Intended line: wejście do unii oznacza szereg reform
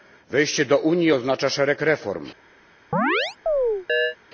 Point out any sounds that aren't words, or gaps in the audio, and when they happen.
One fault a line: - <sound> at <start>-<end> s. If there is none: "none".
- chirp at 2.9-4.2 s